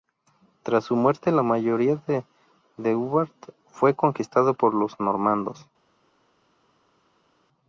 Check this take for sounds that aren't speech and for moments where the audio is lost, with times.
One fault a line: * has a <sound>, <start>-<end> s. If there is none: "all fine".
all fine